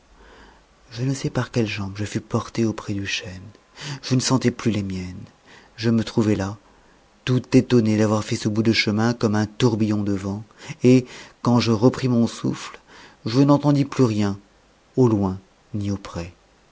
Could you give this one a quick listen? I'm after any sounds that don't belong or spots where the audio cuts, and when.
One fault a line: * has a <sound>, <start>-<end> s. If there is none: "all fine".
all fine